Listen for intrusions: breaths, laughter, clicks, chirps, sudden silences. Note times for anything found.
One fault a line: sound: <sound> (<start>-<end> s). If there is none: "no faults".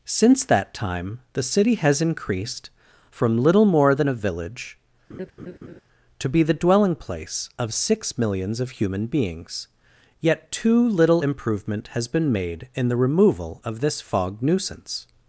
sound: laugh (5.1-5.8 s)